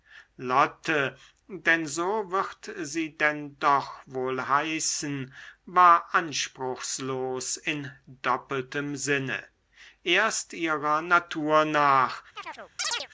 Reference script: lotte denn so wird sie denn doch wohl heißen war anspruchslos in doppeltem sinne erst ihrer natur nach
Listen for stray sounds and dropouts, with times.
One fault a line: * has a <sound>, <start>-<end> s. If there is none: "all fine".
* has a chirp, 12.4-13.1 s